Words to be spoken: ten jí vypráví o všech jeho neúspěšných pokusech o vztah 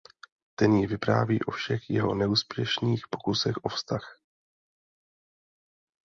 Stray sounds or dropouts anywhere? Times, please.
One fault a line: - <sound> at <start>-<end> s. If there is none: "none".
none